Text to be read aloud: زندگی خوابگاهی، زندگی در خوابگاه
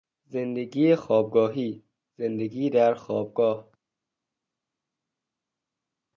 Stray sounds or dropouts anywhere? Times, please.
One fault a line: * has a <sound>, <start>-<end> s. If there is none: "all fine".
all fine